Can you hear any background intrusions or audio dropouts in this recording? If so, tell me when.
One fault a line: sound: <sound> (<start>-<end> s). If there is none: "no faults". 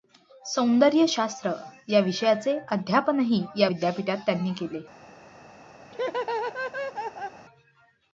sound: laugh (5.9-7.4 s)